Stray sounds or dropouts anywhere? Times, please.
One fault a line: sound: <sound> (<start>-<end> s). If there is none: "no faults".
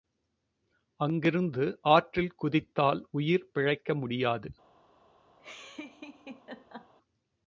sound: laugh (5.4-6.9 s)